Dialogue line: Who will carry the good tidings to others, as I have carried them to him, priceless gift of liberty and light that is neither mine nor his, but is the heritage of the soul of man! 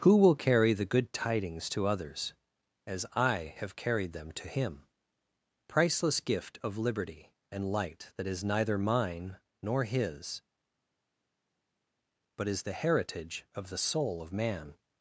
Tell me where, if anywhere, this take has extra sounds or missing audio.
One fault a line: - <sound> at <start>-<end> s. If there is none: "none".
none